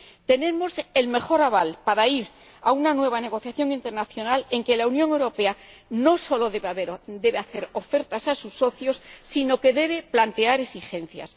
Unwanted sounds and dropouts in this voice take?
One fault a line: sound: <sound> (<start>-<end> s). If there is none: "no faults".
no faults